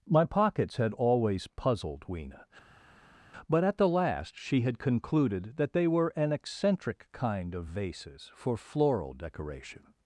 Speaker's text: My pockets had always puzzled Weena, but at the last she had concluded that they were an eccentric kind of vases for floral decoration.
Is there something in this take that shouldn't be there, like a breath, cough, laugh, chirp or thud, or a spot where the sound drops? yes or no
no